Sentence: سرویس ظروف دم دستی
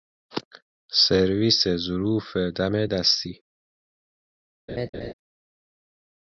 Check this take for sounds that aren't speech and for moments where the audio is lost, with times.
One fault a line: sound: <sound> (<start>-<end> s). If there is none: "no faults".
sound: laugh (4.7-5.1 s)